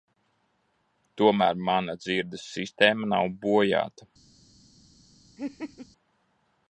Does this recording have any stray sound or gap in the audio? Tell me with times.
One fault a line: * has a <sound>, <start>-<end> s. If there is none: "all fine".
* has a laugh, 5.4-5.9 s